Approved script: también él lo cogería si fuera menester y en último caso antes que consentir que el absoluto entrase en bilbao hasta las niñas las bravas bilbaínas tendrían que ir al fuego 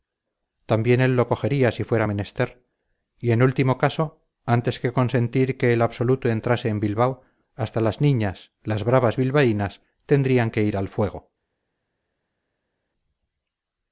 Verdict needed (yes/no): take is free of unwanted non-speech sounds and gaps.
yes